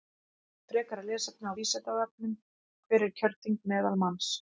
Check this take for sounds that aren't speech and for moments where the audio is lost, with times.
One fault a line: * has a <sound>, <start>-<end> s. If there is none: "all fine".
all fine